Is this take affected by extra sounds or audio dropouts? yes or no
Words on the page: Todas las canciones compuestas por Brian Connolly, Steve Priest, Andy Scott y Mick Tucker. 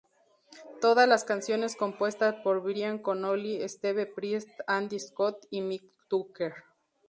no